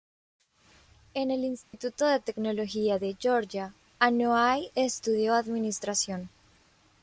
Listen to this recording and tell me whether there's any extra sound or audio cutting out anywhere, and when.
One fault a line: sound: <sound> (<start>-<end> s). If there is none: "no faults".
sound: dropout (1.6-1.7 s)